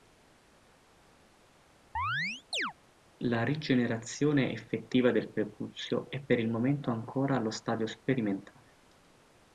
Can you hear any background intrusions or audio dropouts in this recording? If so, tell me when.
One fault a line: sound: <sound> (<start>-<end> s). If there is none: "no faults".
sound: chirp (1.9-2.7 s)